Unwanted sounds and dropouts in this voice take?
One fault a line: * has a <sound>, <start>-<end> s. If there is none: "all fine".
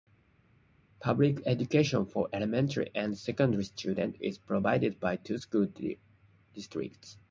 all fine